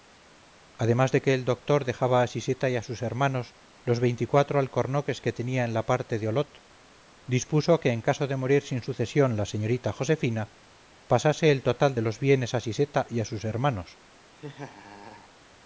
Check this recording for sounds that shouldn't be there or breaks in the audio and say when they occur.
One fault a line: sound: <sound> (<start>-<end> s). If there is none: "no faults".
sound: laugh (14.4-15.3 s)